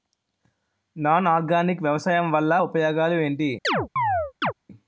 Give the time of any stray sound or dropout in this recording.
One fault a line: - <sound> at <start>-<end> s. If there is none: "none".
- chirp at 3.6-4.5 s